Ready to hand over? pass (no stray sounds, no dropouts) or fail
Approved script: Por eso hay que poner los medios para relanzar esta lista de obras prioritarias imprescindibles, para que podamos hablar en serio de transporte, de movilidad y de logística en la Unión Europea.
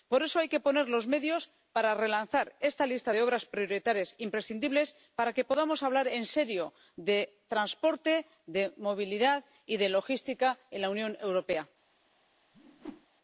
fail